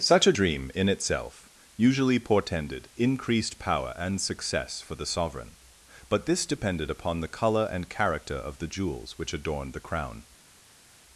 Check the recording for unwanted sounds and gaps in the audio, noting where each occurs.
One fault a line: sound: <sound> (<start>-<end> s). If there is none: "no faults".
no faults